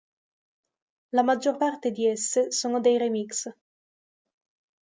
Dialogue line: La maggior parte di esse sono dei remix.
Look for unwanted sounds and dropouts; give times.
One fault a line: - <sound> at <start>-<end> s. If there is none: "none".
none